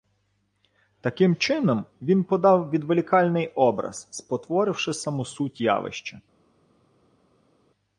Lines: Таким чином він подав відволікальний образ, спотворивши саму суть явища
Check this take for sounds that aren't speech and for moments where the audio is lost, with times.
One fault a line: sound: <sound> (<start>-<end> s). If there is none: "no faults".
no faults